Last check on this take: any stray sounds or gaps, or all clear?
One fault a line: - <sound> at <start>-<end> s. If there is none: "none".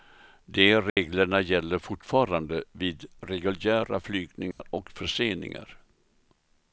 - dropout at 0.9-1.0 s
- dropout at 4.5-4.6 s